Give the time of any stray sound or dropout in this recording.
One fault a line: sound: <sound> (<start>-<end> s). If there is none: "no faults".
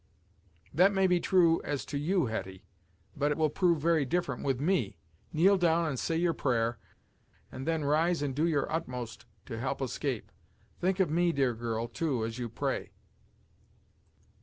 no faults